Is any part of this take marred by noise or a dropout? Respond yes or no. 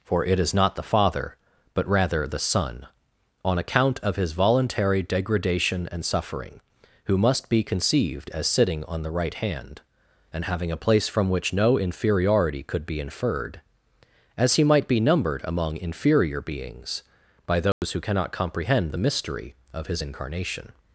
yes